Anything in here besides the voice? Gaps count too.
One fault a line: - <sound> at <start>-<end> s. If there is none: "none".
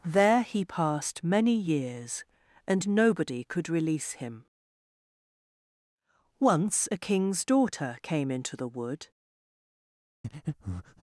- breath at 10.2-11.0 s